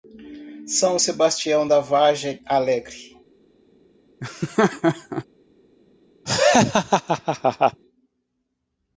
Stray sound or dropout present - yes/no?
yes